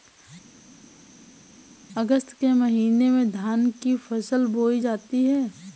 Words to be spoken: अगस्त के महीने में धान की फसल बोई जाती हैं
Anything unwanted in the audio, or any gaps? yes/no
no